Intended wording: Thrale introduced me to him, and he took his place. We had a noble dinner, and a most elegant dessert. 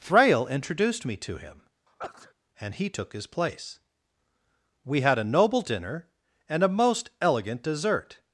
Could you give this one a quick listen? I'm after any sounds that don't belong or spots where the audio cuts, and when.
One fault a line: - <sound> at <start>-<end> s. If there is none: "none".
- sneeze at 1.9-2.3 s